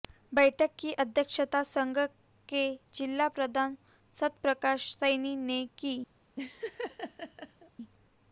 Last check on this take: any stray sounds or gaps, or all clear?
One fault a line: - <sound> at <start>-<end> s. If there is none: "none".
- laugh at 6.4-7.7 s